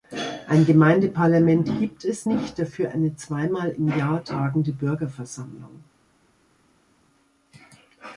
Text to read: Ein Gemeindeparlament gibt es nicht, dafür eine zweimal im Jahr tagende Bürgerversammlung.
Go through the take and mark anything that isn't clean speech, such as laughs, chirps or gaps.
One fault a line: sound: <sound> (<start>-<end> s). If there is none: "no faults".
no faults